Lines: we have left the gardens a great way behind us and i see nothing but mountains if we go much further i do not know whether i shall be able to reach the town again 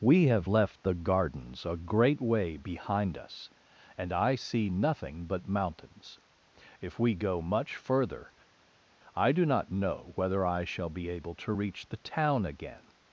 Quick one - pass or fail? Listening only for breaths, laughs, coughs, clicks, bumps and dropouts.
pass